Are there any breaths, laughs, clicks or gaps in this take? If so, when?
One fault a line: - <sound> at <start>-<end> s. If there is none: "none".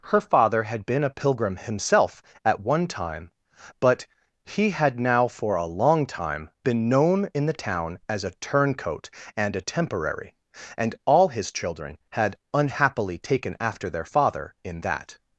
none